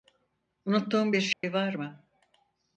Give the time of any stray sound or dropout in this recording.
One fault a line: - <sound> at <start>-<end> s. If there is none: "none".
- dropout at 1.3-1.4 s